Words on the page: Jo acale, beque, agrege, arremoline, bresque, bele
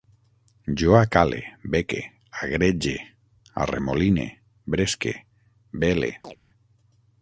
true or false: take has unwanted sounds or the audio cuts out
true